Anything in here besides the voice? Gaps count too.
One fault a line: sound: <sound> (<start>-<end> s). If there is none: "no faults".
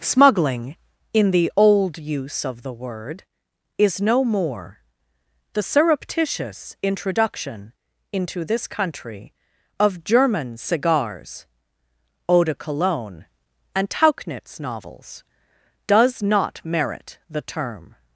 no faults